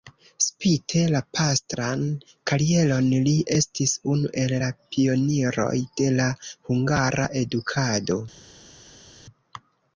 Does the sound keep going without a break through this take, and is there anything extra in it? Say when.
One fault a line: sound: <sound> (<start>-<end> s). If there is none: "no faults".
no faults